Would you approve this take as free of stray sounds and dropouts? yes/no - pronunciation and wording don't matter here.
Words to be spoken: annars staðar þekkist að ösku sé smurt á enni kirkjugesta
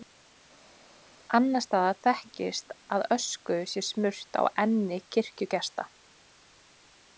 yes